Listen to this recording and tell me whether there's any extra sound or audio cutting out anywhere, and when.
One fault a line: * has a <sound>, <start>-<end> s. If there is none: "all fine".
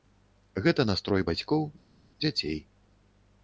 all fine